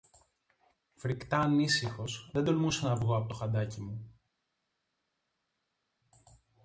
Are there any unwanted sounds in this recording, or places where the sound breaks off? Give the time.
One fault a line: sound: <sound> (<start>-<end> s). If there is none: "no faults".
no faults